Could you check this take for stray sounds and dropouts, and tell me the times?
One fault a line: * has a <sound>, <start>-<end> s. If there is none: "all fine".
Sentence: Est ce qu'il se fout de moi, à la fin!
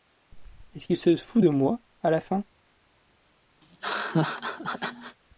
* has a laugh, 3.6-5.2 s